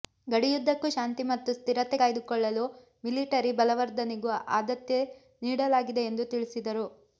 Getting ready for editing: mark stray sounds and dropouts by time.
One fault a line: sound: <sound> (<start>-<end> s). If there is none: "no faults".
no faults